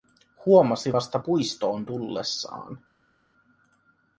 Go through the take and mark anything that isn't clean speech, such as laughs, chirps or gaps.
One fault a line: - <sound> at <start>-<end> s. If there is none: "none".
none